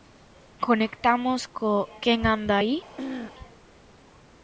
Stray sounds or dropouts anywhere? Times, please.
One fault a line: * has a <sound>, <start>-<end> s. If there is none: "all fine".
* has a throat clearing, 3.0-3.3 s